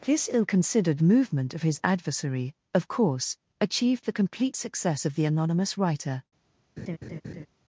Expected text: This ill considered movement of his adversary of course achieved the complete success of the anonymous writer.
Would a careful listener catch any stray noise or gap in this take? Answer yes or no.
yes